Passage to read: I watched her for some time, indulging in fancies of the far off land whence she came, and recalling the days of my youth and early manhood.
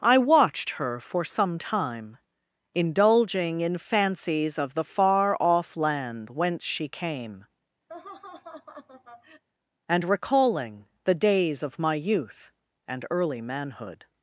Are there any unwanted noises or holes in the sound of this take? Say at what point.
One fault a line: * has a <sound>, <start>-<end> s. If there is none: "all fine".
* has a laugh, 7.9-9.4 s